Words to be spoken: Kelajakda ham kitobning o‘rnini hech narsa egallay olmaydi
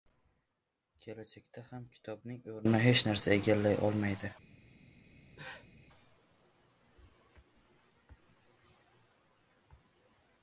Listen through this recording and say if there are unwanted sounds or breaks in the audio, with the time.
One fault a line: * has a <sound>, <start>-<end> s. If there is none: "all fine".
* has a cough, 5.1-5.8 s